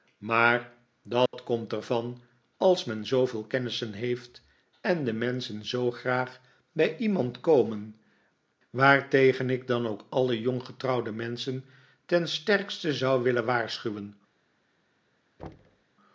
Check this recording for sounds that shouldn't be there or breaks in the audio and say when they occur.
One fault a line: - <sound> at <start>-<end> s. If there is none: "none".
- dropout at 1.3-1.3 s
- thud at 15.4-15.8 s